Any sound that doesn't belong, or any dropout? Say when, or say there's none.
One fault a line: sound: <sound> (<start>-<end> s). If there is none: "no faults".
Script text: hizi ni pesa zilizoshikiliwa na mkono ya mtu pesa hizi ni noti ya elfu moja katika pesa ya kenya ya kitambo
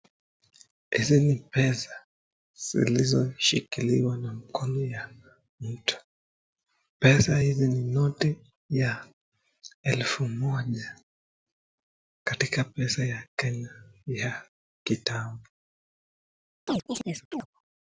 sound: chirp (16.7-17.5 s)